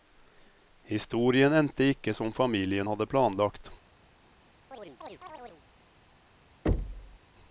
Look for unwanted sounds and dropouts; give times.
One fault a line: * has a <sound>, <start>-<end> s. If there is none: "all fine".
* has a chirp, 4.7-5.6 s
* has a thud, 6.7-7.2 s